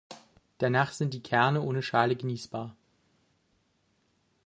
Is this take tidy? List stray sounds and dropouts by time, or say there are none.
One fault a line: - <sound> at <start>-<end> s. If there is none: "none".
none